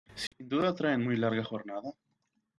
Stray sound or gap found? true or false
true